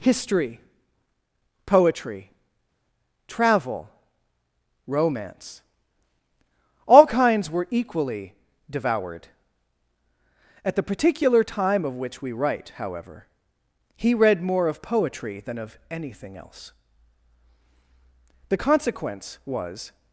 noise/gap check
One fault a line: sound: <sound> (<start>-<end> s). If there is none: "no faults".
no faults